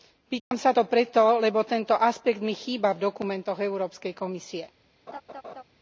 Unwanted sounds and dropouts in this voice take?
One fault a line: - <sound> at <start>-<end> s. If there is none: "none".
- dropout at 0.4-0.5 s
- laugh at 5.1-5.6 s